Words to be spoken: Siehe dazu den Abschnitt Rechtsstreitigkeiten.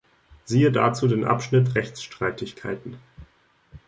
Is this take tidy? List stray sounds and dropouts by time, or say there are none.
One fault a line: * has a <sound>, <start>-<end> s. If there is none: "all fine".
all fine